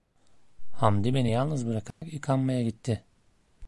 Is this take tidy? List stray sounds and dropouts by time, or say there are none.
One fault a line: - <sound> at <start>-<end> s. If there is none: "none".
- dropout at 1.9-2.0 s